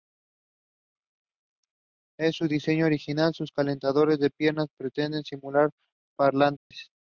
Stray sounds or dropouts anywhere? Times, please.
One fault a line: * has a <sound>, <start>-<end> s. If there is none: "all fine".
* has a dropout, 6.6-6.7 s